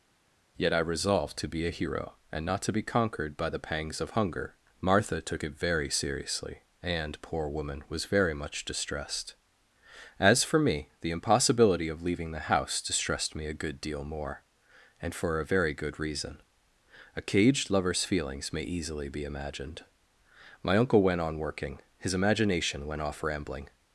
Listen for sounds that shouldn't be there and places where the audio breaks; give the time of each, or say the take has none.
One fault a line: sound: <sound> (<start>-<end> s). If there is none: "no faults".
no faults